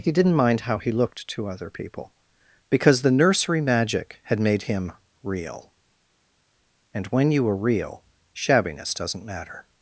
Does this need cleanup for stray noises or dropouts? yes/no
no